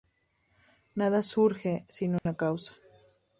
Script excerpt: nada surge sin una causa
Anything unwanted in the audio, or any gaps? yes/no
yes